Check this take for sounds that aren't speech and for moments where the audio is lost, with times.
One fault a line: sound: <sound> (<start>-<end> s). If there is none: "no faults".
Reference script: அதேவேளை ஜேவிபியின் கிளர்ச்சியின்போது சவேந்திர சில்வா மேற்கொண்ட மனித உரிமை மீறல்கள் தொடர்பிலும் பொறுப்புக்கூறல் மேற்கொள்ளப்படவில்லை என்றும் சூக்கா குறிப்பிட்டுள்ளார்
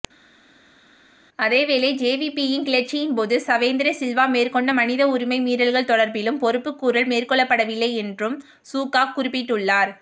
no faults